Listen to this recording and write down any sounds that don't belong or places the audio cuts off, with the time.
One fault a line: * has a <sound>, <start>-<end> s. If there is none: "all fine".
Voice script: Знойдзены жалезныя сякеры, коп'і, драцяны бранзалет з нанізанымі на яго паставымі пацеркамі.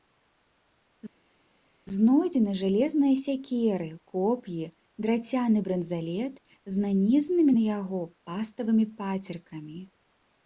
all fine